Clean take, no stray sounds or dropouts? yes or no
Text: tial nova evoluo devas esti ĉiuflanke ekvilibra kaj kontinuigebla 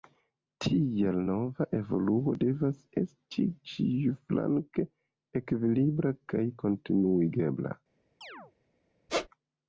no